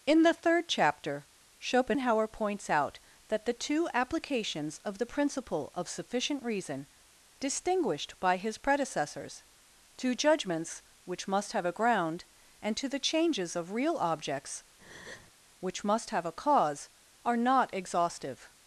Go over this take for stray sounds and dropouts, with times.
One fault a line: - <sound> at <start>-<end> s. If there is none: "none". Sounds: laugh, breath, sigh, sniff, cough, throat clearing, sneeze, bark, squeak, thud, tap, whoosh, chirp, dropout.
- breath at 14.8-15.3 s